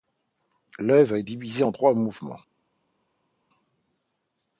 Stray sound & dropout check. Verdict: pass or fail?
pass